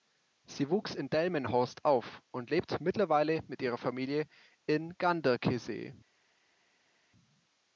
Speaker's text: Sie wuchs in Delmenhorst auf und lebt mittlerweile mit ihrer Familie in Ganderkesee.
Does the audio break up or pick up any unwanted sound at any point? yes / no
no